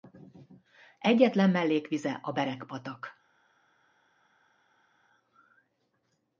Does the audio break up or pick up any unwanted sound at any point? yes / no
no